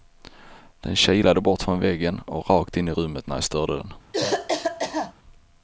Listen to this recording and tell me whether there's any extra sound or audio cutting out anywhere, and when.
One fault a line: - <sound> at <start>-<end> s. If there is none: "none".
- cough at 4.1-5.1 s